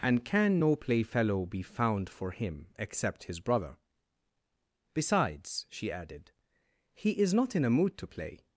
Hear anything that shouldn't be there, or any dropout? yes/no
no